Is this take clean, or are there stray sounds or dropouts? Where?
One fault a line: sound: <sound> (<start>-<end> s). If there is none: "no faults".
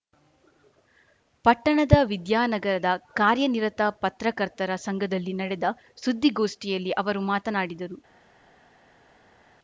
no faults